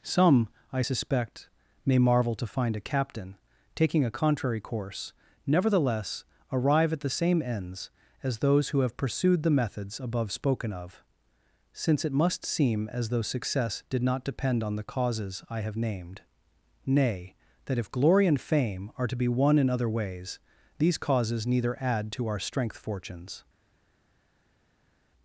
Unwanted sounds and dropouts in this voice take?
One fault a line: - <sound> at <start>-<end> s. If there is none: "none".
none